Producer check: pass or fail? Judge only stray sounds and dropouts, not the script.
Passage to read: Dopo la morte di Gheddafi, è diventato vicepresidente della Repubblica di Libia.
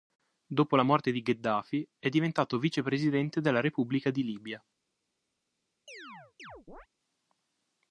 fail